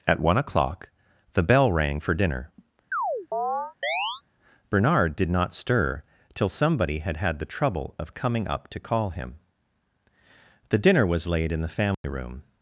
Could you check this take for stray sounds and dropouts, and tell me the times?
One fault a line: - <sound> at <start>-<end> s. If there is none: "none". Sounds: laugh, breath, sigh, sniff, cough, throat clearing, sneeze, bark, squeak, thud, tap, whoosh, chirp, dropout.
- chirp at 2.9-4.2 s
- dropout at 11.9-12.0 s